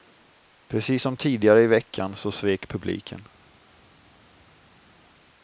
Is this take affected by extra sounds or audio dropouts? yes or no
no